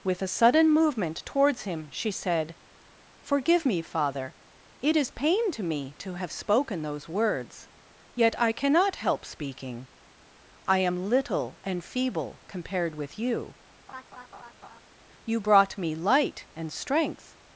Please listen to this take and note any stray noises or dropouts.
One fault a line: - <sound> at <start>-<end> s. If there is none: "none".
- laugh at 13.9-14.8 s